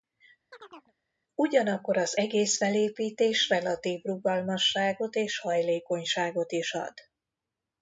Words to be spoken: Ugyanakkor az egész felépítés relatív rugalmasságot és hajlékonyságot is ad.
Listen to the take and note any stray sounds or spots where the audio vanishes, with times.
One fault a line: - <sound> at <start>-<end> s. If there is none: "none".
- chirp at 0.5-0.9 s